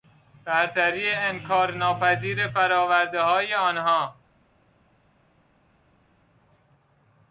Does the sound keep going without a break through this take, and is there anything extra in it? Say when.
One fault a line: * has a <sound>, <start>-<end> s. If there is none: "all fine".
all fine